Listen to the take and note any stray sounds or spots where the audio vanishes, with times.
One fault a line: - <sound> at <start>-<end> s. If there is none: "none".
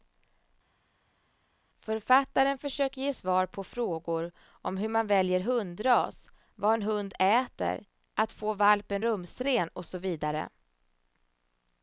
none